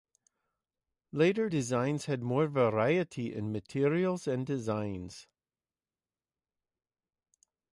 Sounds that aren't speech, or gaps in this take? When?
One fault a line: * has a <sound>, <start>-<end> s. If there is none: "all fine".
all fine